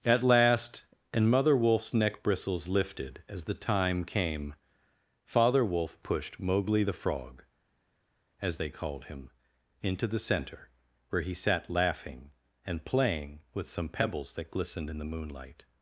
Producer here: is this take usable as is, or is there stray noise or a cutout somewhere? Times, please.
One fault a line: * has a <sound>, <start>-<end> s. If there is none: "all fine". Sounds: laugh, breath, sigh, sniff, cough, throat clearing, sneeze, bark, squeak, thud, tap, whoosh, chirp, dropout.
all fine